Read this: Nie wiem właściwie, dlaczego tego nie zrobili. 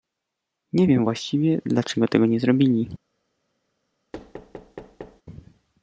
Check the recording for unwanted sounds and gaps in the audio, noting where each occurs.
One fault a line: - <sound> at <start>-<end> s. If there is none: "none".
- thud at 4.1-5.2 s